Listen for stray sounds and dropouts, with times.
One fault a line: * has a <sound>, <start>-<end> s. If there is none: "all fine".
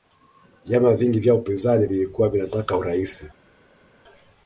all fine